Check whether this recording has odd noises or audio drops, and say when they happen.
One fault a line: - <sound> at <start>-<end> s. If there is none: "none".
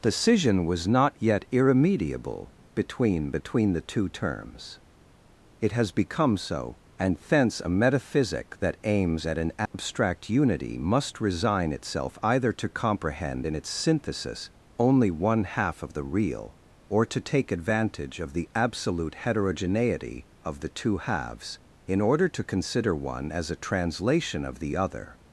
- dropout at 9.7-9.7 s